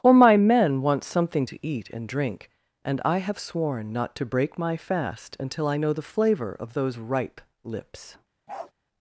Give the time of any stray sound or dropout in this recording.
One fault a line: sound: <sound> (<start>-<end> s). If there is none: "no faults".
sound: bark (8.5-8.7 s)